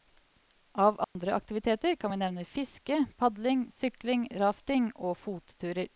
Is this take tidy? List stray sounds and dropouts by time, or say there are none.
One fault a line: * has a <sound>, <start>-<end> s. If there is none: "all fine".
* has a dropout, 1.0-1.2 s